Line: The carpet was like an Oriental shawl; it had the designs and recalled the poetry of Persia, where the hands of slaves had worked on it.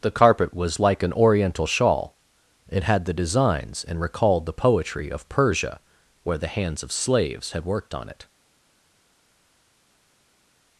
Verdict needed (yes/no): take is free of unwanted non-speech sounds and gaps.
yes